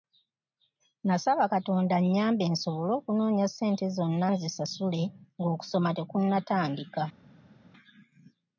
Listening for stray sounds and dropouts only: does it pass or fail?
pass